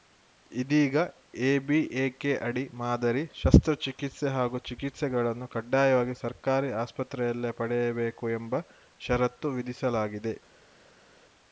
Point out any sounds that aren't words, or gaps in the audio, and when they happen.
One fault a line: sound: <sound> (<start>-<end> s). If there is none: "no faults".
no faults